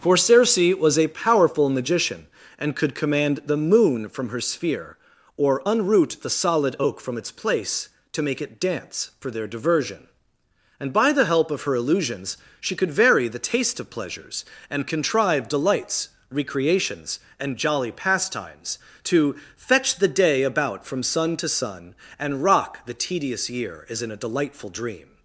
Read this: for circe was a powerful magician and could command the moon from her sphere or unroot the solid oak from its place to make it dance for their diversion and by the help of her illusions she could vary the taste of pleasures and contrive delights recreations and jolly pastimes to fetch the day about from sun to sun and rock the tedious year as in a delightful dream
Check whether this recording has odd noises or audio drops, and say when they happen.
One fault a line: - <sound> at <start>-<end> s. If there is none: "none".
none